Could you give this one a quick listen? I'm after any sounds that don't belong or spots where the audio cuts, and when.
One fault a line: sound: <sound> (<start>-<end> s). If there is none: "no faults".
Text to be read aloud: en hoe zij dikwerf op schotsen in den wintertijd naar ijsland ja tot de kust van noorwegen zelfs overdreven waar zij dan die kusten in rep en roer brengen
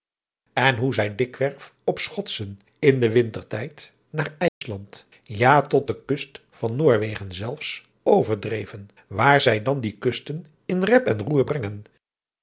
sound: dropout (4.5-4.6 s)